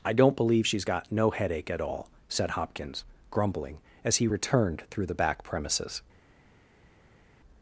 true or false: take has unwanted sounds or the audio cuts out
false